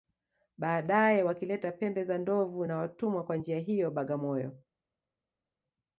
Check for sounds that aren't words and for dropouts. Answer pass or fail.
pass